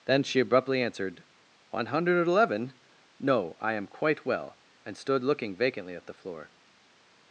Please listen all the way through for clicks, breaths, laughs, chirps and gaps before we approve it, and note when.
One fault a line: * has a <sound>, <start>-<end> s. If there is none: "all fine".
all fine